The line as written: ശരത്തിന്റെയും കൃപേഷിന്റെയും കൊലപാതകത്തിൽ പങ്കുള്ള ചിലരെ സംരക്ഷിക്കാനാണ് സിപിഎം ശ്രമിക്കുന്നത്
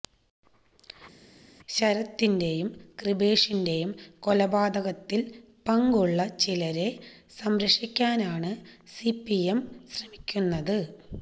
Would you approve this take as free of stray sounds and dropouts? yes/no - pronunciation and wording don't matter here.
yes